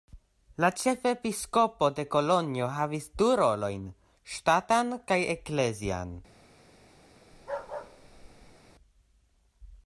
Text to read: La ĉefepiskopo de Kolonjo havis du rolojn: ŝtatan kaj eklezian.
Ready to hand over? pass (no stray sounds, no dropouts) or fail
fail